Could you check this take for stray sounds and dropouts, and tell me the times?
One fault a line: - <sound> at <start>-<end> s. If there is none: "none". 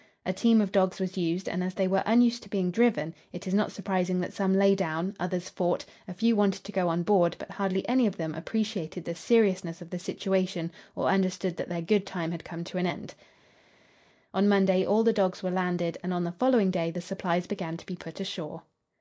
none